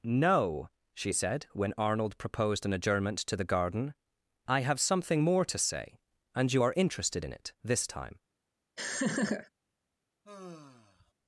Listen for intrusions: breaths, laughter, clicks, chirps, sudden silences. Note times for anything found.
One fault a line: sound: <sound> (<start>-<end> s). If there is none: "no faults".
sound: laugh (8.8-9.5 s)
sound: sigh (10.2-11.1 s)